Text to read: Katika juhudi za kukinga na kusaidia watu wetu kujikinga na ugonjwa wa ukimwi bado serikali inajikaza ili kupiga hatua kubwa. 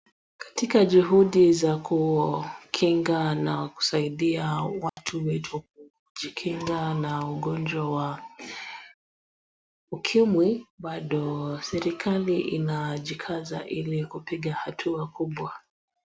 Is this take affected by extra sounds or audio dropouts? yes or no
yes